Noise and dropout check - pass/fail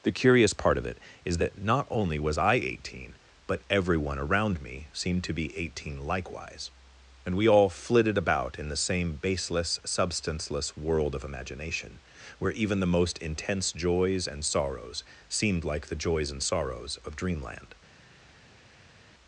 pass